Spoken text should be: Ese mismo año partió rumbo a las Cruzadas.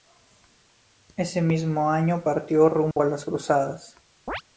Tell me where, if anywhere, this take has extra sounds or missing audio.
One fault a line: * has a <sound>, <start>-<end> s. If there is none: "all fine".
* has a dropout, 2.9-3.0 s
* has a chirp, 4.3-4.4 s